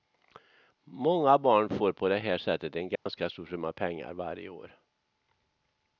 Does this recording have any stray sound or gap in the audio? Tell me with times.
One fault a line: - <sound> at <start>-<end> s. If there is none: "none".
- dropout at 3.0-3.1 s